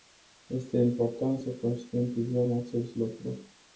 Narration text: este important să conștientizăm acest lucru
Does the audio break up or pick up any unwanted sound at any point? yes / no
no